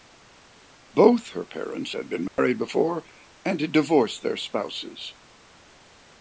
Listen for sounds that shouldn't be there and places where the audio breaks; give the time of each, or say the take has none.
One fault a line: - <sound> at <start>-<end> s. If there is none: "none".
- dropout at 2.3-2.4 s